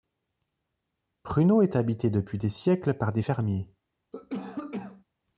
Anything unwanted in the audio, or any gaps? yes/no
yes